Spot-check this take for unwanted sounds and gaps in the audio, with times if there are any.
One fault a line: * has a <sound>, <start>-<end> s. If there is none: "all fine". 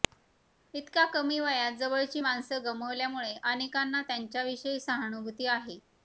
all fine